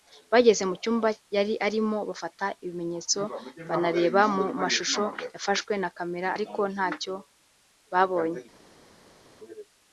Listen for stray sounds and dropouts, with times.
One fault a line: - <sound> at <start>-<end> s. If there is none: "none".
none